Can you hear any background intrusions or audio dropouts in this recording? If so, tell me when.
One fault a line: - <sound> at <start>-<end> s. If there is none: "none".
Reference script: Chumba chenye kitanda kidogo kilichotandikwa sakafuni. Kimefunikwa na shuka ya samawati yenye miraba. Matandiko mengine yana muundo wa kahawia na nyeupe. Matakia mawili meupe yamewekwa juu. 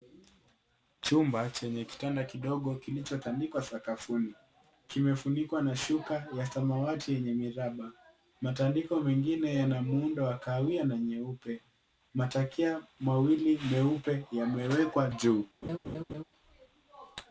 - laugh at 15.6-16.2 s